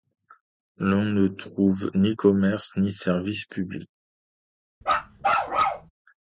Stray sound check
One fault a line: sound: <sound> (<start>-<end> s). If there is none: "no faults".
sound: bark (4.8-5.9 s)